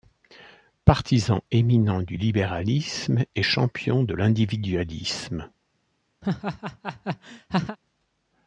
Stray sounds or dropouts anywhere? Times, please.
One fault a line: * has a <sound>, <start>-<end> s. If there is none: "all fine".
* has a laugh, 6.2-7.8 s